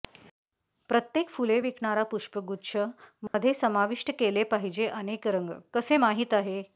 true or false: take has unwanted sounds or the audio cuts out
true